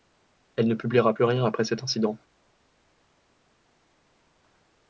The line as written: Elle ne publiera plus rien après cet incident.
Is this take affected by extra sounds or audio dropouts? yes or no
no